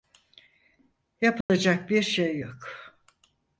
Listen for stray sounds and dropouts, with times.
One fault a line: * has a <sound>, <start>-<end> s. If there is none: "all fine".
* has a dropout, 1.4-1.5 s